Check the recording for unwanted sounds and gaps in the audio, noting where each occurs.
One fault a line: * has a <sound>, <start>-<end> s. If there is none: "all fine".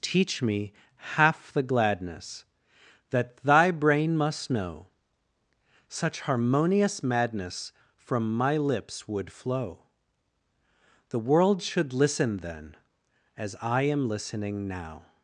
all fine